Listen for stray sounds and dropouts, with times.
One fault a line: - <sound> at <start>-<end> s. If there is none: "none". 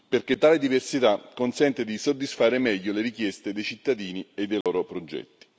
- dropout at 4.6-4.7 s